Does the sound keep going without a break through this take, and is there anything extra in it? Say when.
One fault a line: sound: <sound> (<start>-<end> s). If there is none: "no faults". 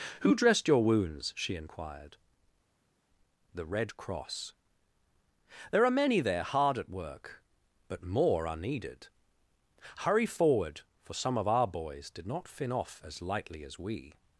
no faults